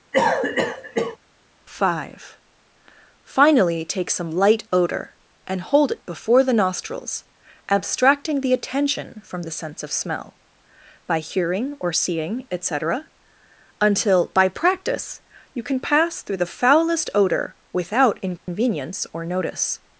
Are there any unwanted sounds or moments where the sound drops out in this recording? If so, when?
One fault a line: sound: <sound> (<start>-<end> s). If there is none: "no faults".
sound: cough (0.1-1.2 s)
sound: dropout (18.4-18.5 s)